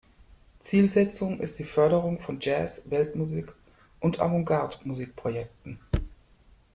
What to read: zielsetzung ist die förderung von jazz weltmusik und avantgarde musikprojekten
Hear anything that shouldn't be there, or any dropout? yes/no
no